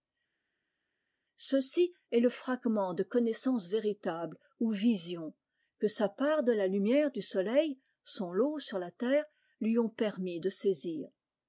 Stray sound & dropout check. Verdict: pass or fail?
pass